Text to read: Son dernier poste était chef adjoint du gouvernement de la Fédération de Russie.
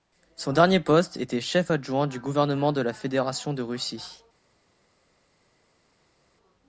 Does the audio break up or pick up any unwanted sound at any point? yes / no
no